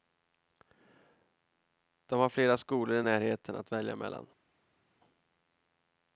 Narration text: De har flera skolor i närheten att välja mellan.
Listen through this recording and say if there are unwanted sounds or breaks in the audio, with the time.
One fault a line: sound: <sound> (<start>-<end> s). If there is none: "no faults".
no faults